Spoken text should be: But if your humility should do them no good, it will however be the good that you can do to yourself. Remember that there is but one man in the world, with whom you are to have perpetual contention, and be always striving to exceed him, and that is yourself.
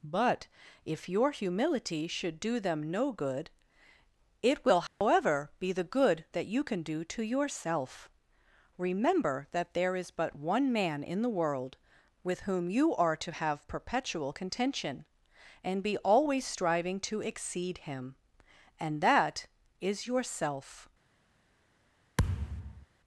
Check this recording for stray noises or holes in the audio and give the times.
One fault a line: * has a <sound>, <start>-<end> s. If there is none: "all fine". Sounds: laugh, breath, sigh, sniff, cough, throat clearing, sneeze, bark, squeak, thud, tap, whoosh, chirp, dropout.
* has a dropout, 4.9-5.0 s
* has a thud, 22.2-22.9 s